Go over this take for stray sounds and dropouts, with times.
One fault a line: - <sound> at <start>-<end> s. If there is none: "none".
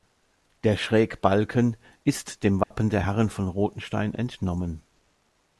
- dropout at 2.6-2.7 s